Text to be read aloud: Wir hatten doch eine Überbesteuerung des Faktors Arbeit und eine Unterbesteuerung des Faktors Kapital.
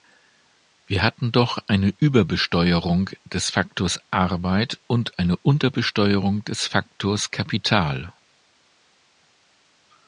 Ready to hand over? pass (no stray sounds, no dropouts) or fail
pass